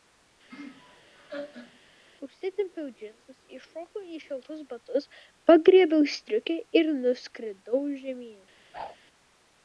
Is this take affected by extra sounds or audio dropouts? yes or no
yes